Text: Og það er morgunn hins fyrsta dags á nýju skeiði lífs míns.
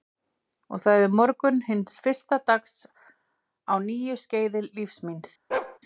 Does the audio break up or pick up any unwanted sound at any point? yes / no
yes